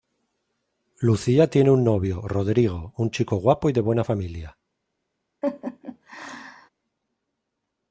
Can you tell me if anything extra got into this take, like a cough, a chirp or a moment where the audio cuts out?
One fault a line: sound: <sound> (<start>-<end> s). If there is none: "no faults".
sound: laugh (5.4-6.7 s)